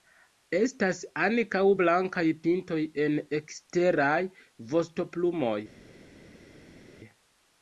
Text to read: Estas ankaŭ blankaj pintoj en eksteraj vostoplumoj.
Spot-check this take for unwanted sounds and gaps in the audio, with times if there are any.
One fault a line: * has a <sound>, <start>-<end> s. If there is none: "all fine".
all fine